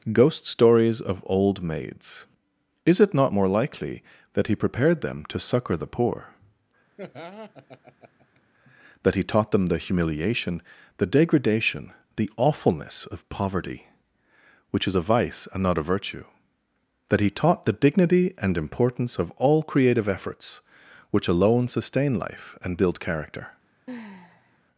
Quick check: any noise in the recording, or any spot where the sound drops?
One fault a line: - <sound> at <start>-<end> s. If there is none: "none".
- laugh at 7.0-8.4 s
- sigh at 23.9-24.6 s